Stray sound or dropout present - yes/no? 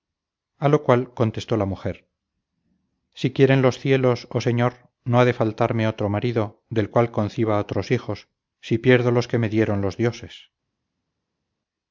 no